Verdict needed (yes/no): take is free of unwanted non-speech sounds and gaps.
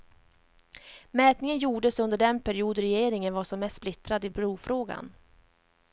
yes